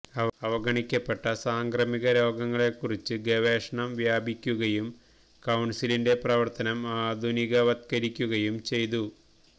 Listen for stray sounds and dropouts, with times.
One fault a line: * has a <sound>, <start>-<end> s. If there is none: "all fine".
all fine